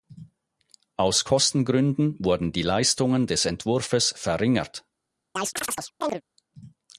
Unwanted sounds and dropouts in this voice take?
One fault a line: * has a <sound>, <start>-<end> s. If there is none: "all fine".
* has a chirp, 5.4-6.2 s